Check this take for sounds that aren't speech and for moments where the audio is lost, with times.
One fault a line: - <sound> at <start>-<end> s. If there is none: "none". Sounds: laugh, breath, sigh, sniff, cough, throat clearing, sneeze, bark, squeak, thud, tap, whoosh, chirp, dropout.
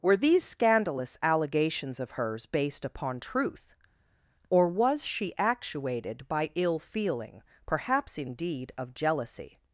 none